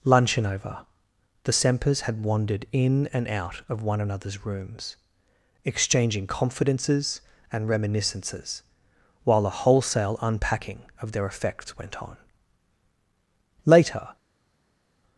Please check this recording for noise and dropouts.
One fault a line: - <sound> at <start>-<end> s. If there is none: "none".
none